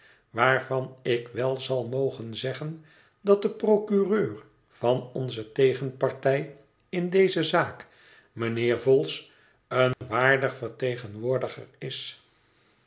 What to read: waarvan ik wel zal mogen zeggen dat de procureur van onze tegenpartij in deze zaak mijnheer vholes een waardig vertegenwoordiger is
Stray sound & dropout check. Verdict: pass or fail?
fail